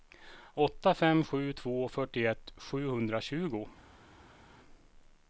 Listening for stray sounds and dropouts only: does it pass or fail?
pass